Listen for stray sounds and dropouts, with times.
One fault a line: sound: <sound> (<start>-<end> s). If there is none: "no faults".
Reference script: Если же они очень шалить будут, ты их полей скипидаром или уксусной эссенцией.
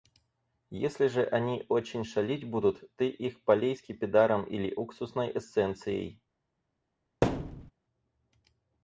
sound: thud (7.2-7.7 s)